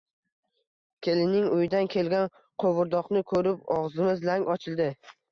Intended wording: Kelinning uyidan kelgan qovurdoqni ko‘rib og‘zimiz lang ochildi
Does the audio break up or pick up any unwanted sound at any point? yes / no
no